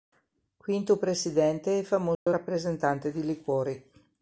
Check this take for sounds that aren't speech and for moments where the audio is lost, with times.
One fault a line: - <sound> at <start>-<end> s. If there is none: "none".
- dropout at 2.1-2.3 s